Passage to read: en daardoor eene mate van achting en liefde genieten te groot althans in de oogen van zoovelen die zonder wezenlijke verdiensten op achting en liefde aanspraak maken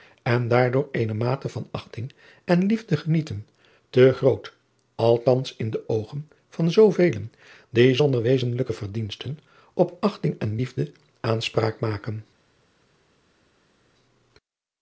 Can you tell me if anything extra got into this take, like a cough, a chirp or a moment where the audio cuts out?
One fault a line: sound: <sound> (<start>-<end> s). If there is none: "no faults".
no faults